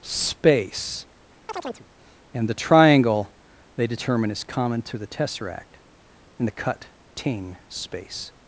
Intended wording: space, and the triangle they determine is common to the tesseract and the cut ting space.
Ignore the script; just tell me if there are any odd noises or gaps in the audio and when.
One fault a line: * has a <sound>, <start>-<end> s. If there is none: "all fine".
* has a chirp, 1.5-1.9 s